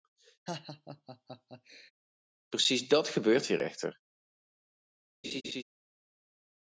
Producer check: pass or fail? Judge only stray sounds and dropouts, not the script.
fail